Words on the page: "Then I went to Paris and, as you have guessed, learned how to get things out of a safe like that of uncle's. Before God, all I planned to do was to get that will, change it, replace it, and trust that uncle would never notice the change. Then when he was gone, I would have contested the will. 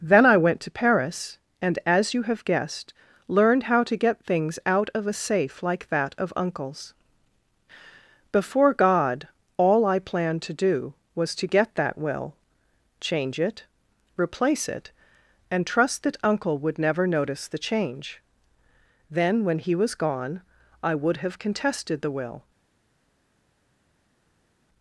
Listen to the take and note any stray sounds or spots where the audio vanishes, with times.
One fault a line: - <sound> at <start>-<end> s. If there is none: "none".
none